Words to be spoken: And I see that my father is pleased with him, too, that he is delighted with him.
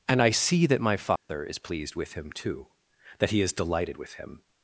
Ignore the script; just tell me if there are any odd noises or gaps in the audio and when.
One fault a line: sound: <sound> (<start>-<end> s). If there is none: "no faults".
sound: dropout (1.2-1.3 s)